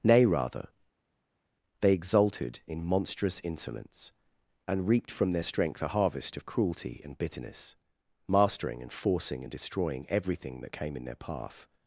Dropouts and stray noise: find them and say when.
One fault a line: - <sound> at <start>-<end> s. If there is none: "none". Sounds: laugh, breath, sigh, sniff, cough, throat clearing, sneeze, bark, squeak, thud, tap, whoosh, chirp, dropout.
none